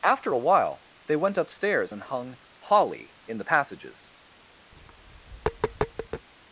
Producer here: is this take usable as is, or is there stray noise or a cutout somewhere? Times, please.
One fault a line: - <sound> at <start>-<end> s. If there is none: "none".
- tap at 4.7-6.3 s